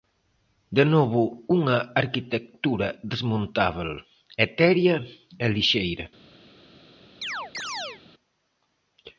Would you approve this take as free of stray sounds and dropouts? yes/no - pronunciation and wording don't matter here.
no